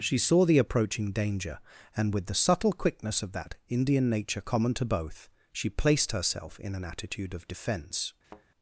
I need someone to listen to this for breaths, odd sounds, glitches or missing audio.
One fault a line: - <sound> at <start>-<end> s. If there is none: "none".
- thud at 8.2-8.5 s